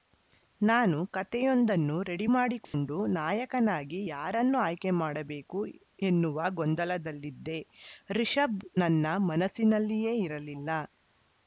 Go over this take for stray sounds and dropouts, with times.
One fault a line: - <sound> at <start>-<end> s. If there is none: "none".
- dropout at 2.6-2.7 s